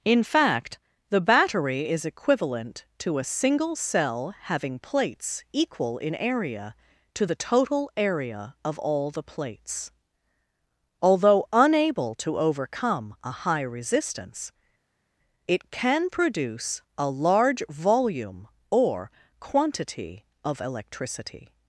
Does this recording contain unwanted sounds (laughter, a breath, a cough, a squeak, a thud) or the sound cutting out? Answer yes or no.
no